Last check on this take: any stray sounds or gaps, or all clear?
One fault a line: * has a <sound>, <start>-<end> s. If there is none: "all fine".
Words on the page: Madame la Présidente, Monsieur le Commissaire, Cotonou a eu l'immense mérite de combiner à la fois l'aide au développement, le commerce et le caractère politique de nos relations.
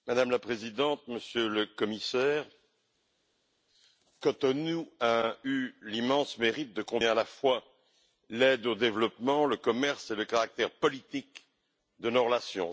all fine